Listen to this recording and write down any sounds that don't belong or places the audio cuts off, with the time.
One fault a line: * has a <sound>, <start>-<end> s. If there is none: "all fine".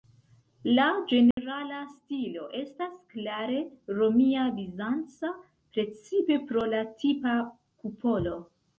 * has a dropout, 1.3-1.4 s